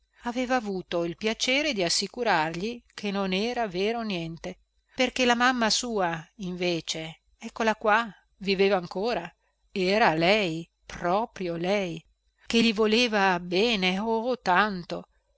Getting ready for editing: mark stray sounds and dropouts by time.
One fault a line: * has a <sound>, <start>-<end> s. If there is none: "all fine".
all fine